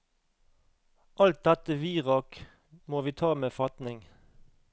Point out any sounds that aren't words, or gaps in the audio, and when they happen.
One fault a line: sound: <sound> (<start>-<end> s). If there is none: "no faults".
no faults